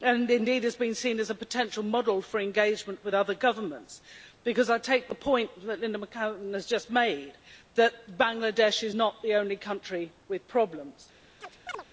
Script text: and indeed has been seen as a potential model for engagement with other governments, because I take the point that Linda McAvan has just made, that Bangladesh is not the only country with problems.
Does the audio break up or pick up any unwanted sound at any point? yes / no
yes